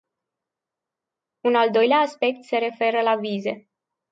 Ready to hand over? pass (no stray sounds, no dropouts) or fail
pass